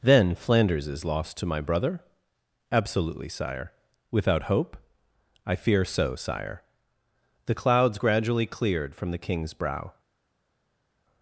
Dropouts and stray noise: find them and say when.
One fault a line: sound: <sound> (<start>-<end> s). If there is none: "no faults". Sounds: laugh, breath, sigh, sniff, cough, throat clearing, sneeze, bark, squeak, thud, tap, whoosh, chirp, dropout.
no faults